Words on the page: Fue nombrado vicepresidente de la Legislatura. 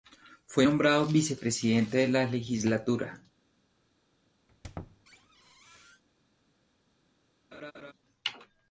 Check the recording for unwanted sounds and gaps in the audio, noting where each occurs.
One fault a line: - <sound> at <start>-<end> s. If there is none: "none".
- squeak at 4.5-6.0 s
- laugh at 7.5-7.9 s